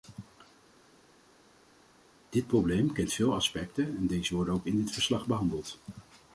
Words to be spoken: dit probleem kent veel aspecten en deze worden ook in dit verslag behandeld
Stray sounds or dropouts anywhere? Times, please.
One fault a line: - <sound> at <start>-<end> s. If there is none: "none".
none